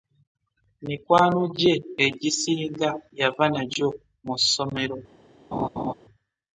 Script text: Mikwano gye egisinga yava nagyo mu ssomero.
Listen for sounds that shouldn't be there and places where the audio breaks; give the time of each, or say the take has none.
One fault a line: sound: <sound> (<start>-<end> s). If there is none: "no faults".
sound: laugh (5.5-5.9 s)